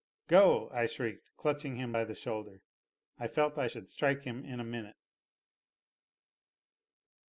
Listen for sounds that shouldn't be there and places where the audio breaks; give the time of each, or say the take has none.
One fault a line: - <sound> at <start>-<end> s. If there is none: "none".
none